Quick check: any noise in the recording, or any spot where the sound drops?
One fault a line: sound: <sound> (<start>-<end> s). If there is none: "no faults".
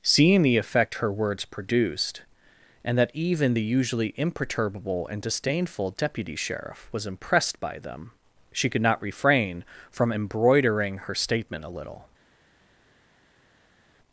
no faults